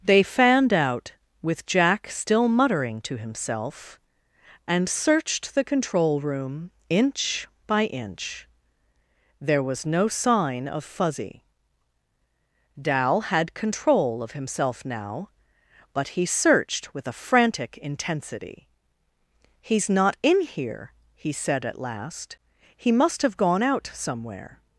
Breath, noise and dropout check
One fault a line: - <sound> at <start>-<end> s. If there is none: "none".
none